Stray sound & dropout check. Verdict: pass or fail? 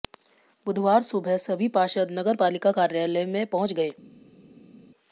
pass